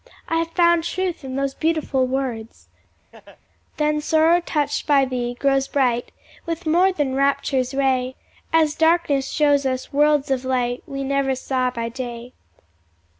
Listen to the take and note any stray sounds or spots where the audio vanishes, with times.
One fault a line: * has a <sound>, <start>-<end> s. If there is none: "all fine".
* has a laugh, 3.1-3.4 s